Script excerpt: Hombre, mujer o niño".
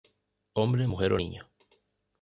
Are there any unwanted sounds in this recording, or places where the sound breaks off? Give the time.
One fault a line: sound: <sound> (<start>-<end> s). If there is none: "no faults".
no faults